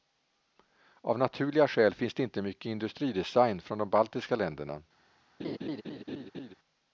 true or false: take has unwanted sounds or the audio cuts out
true